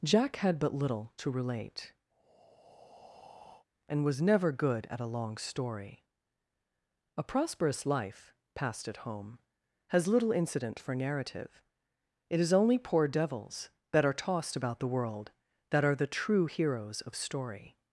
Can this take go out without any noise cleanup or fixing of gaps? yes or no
no